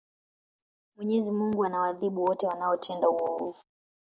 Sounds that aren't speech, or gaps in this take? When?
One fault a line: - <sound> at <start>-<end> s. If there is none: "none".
none